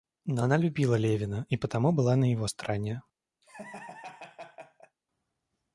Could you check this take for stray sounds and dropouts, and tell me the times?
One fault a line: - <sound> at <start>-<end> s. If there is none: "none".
- laugh at 3.4-5.0 s